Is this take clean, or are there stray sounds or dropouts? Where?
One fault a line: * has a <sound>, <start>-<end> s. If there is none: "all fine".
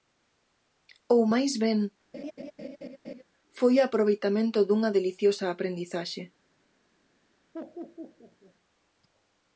* has a laugh, 2.1-3.2 s
* has a laugh, 7.5-8.5 s